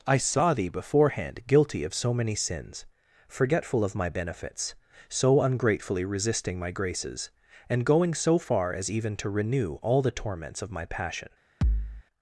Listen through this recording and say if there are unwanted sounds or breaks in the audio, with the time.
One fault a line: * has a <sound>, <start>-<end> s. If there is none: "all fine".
* has a thud, 11.6-12.0 s